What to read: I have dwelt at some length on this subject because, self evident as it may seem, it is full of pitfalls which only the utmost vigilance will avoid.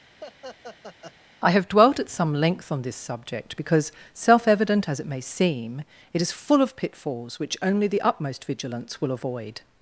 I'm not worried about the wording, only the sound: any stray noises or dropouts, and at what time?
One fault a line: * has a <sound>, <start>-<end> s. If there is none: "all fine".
* has a laugh, 0.2-1.2 s